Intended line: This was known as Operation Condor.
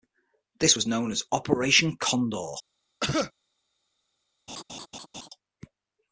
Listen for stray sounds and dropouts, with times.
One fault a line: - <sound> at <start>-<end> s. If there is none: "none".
- cough at 3.0-3.3 s
- laugh at 4.5-5.3 s